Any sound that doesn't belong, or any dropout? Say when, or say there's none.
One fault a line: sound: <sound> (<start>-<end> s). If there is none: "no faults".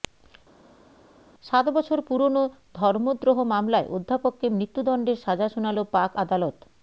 no faults